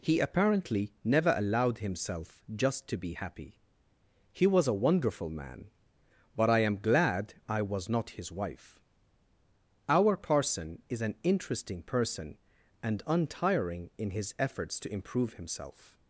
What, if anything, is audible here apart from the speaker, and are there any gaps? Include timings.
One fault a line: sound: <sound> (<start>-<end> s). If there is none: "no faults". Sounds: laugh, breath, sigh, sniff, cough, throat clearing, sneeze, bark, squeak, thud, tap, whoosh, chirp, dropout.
no faults